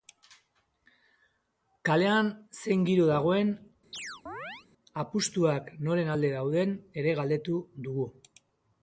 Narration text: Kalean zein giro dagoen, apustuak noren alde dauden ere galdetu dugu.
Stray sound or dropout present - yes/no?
yes